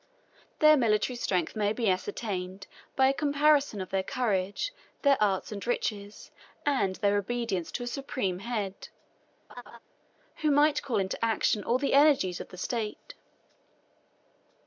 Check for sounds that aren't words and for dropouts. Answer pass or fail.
fail